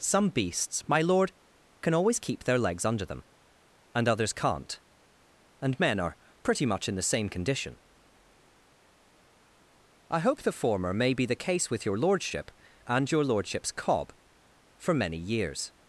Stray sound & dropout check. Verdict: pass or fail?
pass